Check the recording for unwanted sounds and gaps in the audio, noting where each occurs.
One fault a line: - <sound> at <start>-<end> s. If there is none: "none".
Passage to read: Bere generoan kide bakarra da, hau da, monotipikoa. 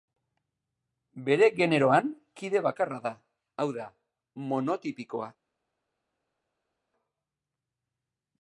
none